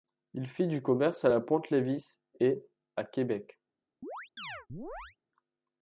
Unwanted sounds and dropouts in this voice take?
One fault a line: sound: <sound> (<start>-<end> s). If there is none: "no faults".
sound: chirp (4.0-5.2 s)